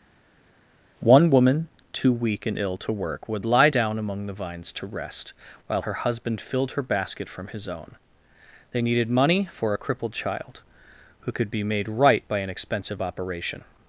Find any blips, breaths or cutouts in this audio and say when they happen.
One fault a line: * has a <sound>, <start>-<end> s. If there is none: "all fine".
all fine